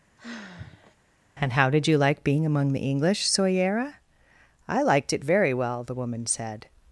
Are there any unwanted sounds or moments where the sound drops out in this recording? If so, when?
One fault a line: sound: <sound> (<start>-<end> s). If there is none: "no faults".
sound: sigh (0.2-1.0 s)